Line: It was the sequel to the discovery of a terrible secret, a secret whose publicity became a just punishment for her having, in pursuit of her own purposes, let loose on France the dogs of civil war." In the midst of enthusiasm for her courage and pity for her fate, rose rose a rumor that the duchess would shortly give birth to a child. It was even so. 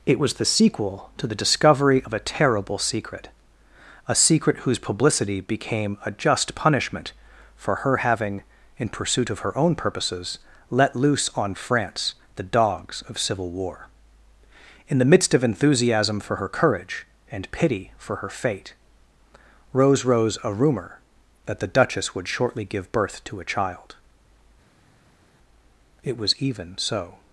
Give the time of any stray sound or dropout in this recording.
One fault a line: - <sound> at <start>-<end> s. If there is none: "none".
none